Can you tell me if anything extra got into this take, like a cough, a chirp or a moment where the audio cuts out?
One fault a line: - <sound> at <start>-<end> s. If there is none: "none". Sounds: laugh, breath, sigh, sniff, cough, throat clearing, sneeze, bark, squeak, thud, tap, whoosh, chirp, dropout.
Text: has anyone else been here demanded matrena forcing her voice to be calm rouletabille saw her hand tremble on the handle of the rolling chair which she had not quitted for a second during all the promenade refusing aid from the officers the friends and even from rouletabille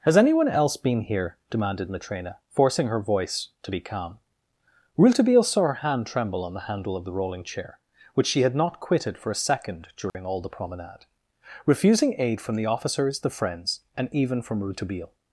- dropout at 10.1-10.1 s